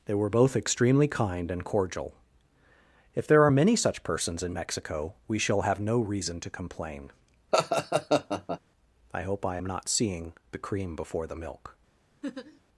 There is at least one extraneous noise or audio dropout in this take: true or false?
true